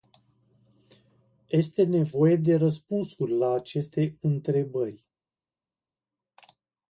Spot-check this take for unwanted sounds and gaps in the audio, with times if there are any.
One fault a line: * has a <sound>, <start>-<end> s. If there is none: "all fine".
all fine